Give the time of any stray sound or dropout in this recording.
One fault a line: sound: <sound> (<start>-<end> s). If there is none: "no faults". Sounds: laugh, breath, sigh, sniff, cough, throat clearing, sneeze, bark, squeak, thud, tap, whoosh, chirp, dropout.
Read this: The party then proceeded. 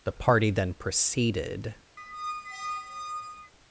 sound: squeak (2.0-3.5 s)